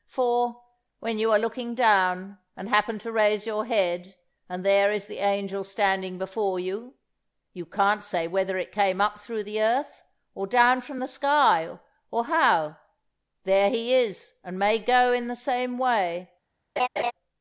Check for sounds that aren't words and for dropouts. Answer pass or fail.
fail